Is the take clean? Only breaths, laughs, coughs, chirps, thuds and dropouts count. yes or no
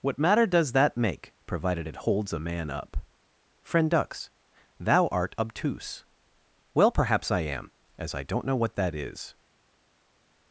yes